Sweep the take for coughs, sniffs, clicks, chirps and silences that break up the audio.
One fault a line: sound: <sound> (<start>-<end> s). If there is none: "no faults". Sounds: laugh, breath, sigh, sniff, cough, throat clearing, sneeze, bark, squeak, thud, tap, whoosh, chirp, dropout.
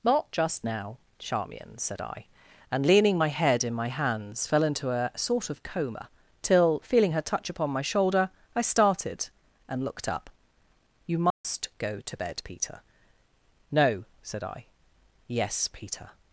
sound: dropout (11.3-11.4 s)